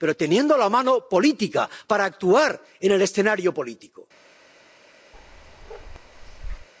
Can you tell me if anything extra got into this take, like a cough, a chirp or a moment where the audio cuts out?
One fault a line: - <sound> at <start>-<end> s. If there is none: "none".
- bark at 5.1-6.7 s